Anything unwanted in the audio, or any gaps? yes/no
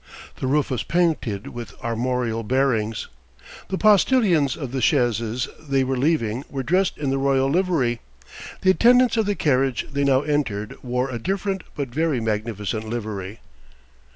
no